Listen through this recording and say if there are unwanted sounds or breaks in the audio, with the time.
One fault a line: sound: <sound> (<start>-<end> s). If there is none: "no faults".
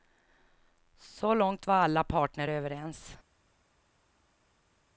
no faults